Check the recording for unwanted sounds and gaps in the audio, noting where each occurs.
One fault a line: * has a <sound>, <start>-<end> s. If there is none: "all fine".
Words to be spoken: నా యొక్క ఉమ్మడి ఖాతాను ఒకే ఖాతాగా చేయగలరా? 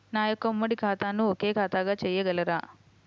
all fine